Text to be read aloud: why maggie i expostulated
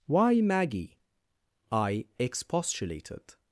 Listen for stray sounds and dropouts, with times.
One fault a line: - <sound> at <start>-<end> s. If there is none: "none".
none